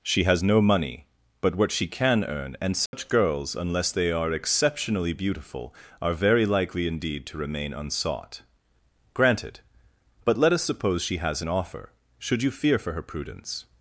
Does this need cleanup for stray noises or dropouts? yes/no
yes